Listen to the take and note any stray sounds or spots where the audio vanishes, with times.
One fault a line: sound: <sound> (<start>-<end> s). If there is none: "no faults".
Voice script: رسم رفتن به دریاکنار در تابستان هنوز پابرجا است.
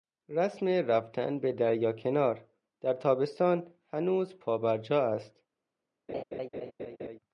sound: laugh (6.1-7.2 s)